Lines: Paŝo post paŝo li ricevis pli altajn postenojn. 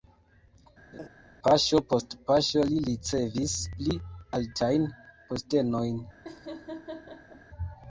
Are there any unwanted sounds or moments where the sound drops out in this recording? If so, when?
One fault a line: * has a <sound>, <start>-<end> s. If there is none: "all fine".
* has a laugh, 0.9-1.1 s
* has a laugh, 6.2-7.5 s